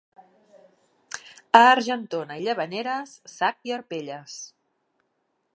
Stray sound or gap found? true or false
false